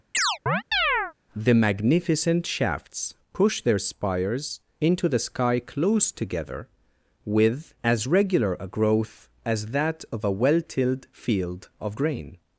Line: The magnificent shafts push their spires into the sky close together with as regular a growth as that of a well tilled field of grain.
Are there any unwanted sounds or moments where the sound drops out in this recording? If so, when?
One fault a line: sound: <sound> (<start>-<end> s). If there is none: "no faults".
sound: chirp (0.1-1.1 s)